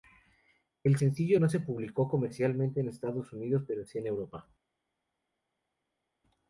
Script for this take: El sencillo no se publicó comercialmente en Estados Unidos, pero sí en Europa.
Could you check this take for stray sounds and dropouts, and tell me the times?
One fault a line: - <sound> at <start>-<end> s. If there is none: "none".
none